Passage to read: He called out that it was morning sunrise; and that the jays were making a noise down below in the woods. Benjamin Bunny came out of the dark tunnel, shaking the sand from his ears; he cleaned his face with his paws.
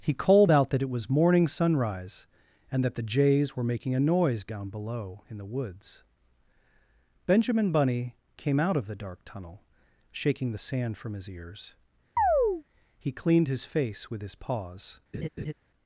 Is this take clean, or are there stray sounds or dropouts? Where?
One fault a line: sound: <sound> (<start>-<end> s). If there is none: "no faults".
sound: chirp (12.2-12.6 s)
sound: laugh (15.1-15.5 s)